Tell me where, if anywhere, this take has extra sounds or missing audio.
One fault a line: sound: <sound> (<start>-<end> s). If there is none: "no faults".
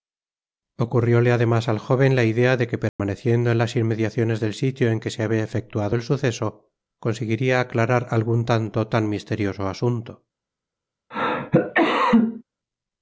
sound: dropout (2.9-3.0 s)
sound: cough (11.1-12.4 s)